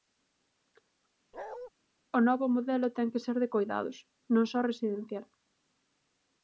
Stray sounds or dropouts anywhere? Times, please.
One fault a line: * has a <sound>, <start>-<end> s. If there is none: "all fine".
* has a bark, 1.3-1.7 s